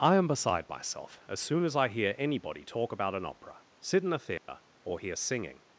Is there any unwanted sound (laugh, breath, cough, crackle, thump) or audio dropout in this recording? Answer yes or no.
yes